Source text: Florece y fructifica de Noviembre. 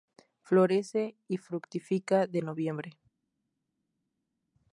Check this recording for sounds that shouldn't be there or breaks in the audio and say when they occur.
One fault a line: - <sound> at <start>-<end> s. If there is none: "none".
none